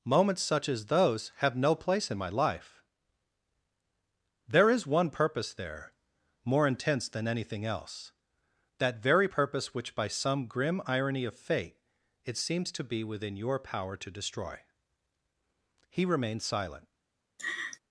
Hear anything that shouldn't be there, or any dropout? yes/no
yes